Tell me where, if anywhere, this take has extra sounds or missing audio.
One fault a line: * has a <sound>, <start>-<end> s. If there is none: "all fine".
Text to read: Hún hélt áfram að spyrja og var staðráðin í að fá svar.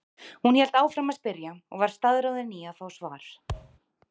* has a thud, 3.5-3.8 s